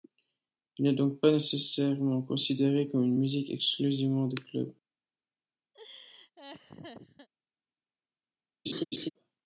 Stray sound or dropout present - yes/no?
yes